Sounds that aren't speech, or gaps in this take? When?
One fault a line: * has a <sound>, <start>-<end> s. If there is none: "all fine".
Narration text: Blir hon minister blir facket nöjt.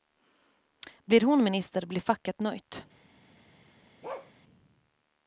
* has a bark, 4.0-4.3 s